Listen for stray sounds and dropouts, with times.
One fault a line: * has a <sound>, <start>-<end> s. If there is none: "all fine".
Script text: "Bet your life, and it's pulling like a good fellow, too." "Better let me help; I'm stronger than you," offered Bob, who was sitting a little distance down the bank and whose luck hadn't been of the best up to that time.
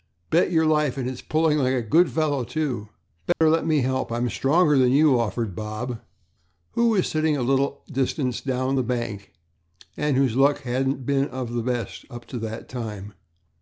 * has a dropout, 3.3-3.4 s